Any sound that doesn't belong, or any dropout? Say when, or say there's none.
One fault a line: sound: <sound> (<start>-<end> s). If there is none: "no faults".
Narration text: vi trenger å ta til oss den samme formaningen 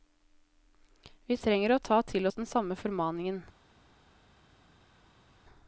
no faults